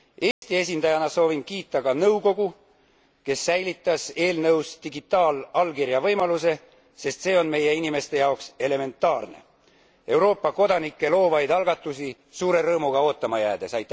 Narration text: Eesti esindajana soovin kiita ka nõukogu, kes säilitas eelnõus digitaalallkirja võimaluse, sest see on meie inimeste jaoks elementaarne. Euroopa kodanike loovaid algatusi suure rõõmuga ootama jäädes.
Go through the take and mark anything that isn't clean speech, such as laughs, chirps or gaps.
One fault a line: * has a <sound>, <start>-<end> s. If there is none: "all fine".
* has a dropout, 0.3-0.4 s